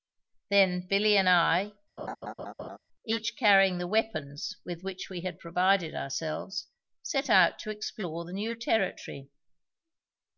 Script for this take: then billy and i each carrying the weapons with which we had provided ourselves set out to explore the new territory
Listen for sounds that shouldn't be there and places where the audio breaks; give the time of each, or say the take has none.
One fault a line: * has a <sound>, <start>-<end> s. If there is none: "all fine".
* has a laugh, 2.0-2.8 s